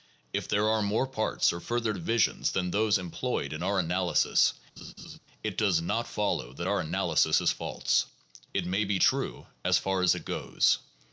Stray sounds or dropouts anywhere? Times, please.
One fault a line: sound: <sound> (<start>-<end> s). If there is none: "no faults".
sound: laugh (4.8-5.2 s)